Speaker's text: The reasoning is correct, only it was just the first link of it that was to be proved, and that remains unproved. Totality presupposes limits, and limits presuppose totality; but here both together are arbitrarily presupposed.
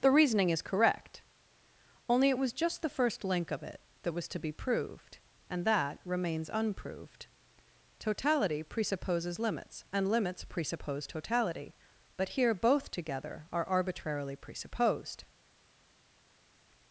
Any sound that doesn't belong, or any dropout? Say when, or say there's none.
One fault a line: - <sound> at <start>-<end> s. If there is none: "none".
none